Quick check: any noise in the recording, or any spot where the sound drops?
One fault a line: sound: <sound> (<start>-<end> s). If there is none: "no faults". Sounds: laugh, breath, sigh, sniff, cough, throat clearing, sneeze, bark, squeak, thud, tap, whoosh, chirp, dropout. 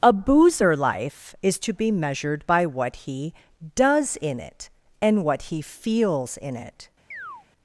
sound: chirp (7.1-7.5 s)